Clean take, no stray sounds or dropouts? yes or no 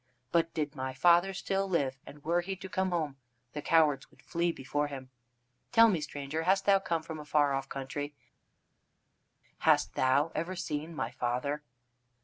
yes